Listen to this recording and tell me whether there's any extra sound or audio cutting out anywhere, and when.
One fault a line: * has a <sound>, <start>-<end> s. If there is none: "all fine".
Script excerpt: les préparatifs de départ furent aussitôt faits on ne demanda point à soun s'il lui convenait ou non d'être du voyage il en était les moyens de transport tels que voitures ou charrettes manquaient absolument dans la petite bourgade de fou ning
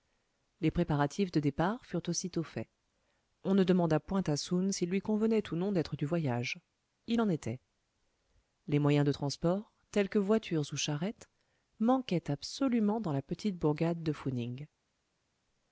all fine